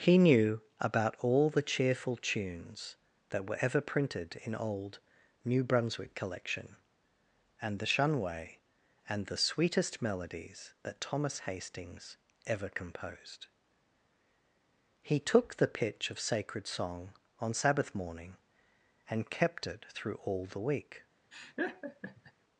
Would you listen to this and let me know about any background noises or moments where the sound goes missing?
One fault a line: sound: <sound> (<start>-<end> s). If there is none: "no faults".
sound: laugh (21.3-22.3 s)